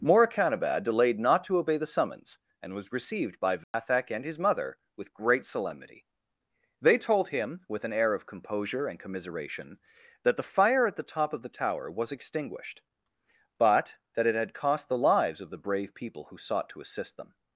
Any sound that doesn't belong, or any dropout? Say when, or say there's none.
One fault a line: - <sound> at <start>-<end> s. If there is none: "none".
- dropout at 3.6-3.7 s